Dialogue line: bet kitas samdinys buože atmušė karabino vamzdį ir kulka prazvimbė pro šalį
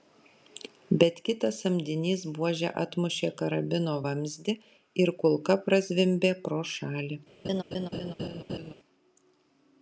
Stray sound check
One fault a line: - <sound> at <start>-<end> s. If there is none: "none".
- laugh at 7.4-8.7 s